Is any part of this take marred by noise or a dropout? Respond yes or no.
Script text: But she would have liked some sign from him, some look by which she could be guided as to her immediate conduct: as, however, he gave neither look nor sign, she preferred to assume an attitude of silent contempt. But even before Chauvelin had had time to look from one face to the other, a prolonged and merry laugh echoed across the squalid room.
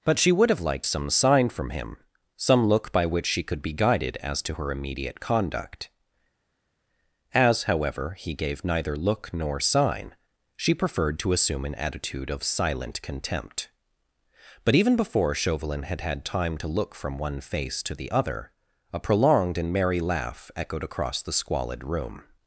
no